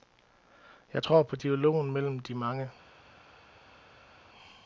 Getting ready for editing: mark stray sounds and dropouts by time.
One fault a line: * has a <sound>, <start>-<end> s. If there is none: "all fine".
all fine